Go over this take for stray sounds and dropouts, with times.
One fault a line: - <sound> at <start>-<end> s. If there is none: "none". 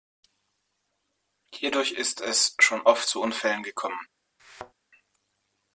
- thud at 4.4-4.7 s